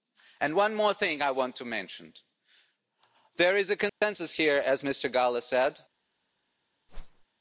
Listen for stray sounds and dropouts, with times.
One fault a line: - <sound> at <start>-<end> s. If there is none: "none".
- dropout at 3.9-4.0 s
- whoosh at 6.9-7.2 s